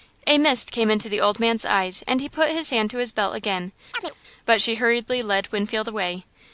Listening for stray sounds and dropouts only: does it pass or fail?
fail